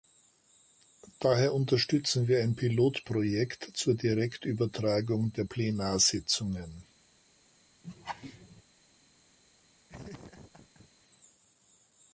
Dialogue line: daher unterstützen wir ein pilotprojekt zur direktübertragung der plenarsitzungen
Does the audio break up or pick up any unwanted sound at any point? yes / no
yes